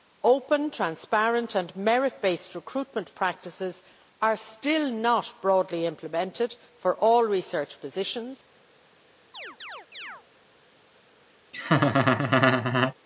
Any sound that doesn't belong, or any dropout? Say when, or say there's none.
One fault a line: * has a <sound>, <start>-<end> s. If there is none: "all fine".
* has a chirp, 9.3-10.2 s
* has a laugh, 11.5-13.0 s